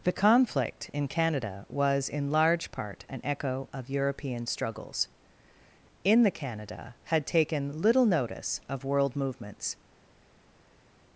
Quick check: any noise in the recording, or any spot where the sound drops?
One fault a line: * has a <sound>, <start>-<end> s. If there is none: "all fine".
all fine